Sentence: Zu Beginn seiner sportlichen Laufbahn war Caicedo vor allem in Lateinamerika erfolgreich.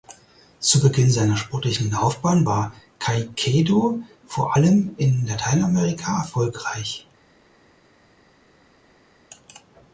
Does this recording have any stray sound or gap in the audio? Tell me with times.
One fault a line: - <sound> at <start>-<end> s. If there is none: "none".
none